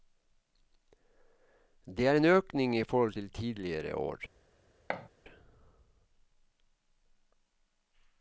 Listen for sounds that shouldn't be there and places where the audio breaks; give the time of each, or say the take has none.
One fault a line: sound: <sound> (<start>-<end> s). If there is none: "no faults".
sound: thud (4.9-5.1 s)